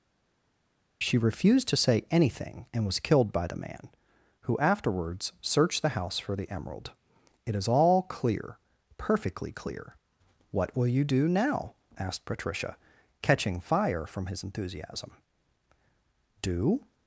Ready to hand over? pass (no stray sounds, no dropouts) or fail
pass